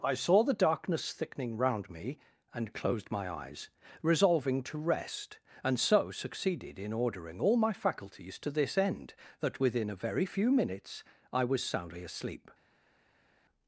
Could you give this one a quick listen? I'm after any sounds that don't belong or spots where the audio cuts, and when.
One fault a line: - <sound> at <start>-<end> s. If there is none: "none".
none